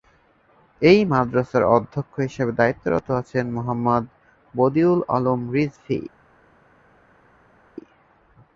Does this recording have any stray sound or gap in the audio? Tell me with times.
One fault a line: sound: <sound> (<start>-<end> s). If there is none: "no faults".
no faults